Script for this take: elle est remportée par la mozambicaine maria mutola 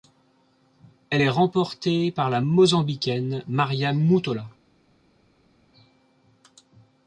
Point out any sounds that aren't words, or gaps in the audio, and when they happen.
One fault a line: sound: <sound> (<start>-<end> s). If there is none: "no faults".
no faults